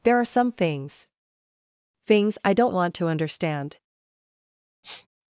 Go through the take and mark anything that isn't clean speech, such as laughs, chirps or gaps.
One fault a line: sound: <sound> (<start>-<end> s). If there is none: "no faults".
sound: sniff (4.8-5.1 s)